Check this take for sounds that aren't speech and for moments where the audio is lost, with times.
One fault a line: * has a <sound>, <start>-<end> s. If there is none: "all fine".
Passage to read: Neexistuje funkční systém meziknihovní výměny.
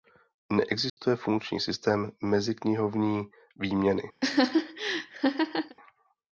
* has a dropout, 0.9-1.0 s
* has a laugh, 4.2-5.8 s